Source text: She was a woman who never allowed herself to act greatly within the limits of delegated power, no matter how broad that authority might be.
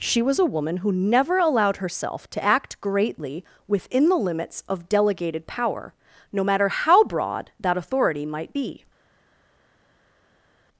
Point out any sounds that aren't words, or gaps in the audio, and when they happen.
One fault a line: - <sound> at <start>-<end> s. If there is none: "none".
none